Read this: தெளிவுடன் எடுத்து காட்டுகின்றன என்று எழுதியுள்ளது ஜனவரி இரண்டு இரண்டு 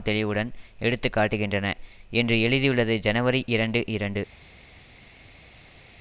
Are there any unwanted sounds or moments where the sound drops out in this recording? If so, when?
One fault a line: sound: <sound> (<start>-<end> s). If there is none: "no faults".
no faults